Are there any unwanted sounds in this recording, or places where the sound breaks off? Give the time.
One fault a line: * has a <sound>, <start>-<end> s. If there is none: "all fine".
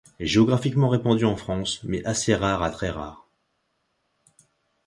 all fine